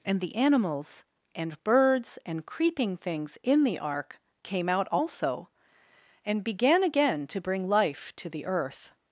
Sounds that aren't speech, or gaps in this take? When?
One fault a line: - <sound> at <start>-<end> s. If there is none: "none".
none